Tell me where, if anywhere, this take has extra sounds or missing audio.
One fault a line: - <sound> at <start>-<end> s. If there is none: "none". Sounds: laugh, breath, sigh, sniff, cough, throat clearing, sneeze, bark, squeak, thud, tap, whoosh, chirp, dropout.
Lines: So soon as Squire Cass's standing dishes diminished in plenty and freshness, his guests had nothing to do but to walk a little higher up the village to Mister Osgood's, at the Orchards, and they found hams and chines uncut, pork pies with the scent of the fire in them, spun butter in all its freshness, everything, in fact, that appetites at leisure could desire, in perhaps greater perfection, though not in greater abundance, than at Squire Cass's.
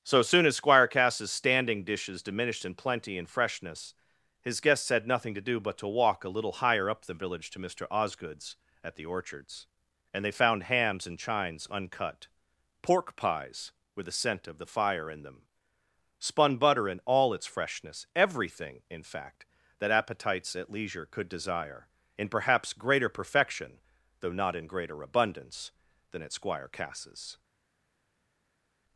none